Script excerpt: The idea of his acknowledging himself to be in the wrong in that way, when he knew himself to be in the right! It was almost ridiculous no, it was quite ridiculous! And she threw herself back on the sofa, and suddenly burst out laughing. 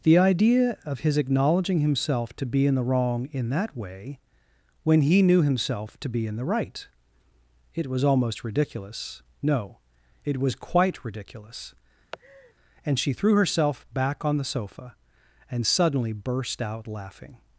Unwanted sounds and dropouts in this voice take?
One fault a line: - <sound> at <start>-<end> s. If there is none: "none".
- laugh at 12.1-12.5 s